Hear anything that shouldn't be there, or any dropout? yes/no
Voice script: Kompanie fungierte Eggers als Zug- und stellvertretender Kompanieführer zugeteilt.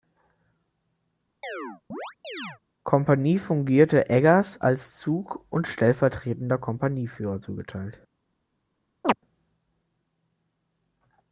yes